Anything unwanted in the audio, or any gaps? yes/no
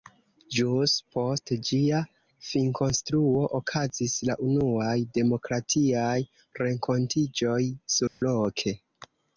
yes